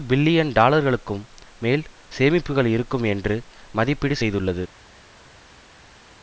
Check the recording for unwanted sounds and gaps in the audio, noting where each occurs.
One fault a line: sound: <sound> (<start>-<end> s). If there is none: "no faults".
no faults